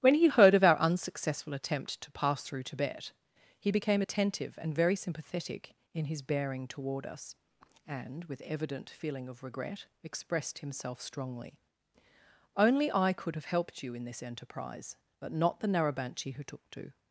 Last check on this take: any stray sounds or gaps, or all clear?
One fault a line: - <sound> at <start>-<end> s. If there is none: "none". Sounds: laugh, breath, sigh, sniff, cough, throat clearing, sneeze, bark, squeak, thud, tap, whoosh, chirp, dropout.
none